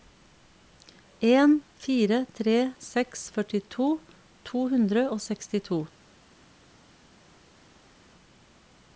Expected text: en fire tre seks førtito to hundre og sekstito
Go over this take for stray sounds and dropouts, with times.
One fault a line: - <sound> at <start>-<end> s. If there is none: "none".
none